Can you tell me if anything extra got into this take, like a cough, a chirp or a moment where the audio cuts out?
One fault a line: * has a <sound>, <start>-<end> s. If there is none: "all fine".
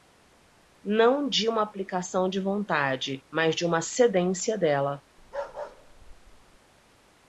* has a bark, 5.2-6.6 s